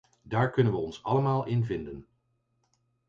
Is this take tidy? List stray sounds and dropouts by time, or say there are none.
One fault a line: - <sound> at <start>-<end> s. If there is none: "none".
none